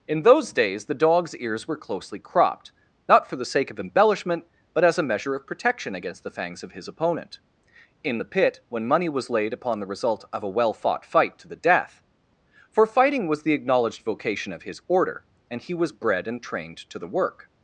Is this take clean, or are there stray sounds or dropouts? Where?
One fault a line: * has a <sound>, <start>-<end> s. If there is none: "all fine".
all fine